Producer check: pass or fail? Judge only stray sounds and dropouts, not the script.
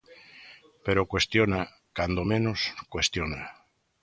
pass